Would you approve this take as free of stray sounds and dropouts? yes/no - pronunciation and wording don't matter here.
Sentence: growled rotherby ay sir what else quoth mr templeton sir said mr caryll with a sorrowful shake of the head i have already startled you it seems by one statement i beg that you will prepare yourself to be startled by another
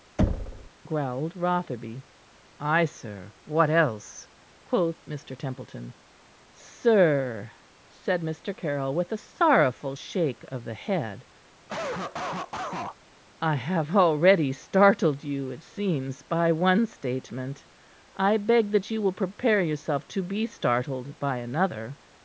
no